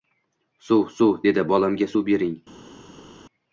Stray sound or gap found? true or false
false